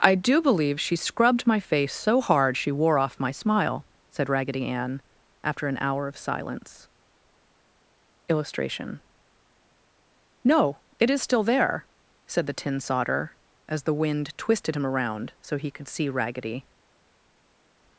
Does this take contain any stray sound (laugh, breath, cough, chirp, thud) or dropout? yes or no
no